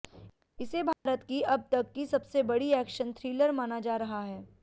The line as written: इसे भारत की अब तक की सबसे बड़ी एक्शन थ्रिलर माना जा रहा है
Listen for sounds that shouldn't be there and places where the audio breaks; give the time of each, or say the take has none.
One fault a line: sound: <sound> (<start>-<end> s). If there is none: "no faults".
sound: dropout (0.9-1.1 s)